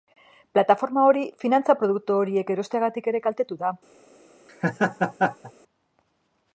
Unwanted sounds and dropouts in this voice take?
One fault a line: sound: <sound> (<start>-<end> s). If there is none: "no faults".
sound: laugh (4.5-5.5 s)